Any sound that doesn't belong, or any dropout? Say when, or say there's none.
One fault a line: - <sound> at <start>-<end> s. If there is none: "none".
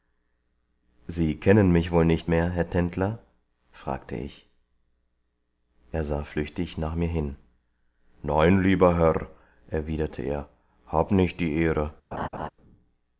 - laugh at 12.1-12.5 s